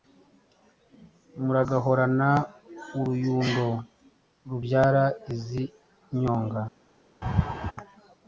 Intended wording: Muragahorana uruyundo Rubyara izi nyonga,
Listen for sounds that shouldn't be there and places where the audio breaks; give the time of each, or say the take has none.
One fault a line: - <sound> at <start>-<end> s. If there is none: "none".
- laugh at 7.2-7.7 s